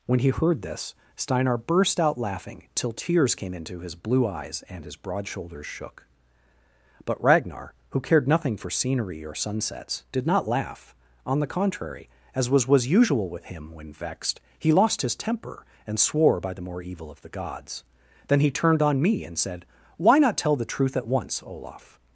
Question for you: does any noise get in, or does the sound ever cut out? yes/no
no